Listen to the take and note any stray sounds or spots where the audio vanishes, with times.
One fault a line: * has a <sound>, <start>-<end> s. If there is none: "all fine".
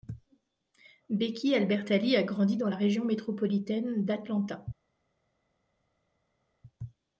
all fine